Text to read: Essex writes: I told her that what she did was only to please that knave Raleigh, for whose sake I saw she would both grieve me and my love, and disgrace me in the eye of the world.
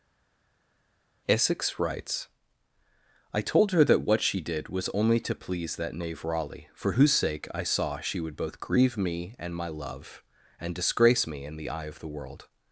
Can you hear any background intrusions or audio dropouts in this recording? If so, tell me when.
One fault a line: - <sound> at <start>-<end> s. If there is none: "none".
none